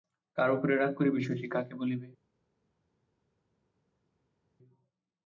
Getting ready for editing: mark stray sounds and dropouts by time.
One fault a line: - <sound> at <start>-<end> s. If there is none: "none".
none